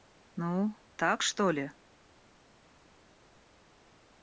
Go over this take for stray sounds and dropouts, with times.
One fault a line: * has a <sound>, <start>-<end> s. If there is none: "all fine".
all fine